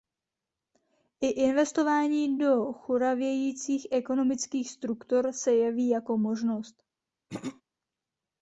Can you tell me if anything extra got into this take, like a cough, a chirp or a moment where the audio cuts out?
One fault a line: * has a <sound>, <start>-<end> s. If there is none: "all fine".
* has a throat clearing, 7.3-7.6 s